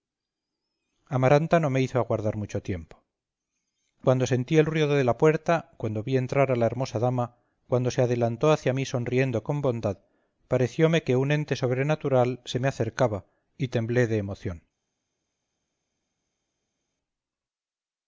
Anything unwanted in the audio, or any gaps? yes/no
no